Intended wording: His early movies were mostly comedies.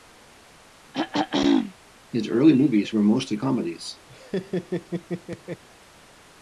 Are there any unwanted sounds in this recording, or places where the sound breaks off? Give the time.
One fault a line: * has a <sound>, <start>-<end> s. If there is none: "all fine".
* has a throat clearing, 0.9-1.7 s
* has a laugh, 4.1-5.6 s